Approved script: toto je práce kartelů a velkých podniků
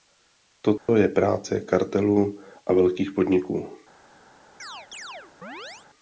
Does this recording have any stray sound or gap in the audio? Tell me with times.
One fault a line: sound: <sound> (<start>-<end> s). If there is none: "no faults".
sound: dropout (0.8-0.9 s)
sound: chirp (4.6-5.9 s)